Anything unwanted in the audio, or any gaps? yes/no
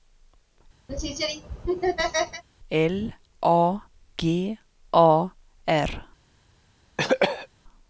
yes